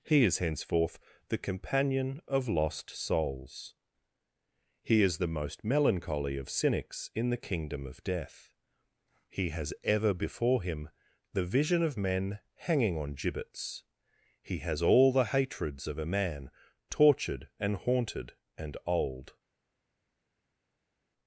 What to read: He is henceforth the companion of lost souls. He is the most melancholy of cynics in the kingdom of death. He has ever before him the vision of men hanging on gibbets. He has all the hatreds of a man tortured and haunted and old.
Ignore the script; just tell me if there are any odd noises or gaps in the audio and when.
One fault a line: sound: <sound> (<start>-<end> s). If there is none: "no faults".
no faults